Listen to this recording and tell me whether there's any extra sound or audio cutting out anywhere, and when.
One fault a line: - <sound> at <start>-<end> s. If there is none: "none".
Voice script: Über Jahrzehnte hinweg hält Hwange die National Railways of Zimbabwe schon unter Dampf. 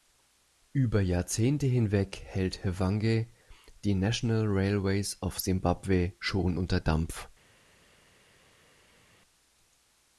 none